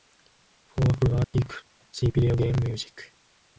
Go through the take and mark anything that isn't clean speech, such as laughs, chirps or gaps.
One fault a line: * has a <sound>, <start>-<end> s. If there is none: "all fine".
* has a dropout, 1.2-1.3 s